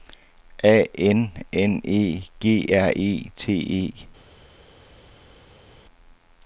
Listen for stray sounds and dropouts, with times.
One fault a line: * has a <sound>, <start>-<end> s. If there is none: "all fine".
all fine